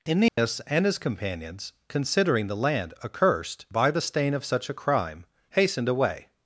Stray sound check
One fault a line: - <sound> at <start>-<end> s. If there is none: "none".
- dropout at 0.3-0.4 s